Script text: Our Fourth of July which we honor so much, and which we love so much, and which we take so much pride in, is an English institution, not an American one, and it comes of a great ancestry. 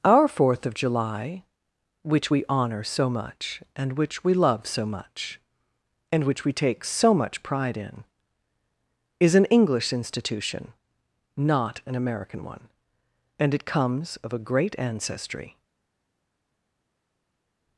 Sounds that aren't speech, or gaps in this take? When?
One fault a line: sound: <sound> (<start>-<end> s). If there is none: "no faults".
no faults